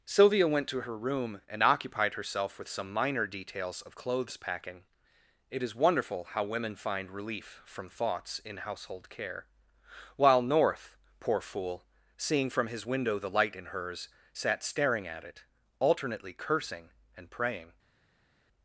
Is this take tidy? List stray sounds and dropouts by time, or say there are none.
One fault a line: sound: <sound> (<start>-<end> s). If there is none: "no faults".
no faults